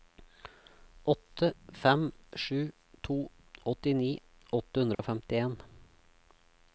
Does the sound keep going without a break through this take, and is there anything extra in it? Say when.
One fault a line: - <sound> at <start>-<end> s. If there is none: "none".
- dropout at 4.9-5.0 s